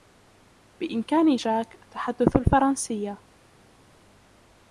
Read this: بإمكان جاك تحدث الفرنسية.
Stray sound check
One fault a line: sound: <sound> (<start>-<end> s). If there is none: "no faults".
no faults